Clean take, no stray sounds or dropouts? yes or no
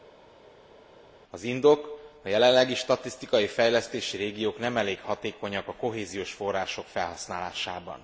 yes